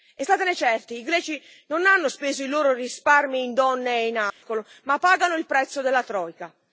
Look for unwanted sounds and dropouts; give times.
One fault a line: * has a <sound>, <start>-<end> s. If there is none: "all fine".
* has a dropout, 4.3-4.4 s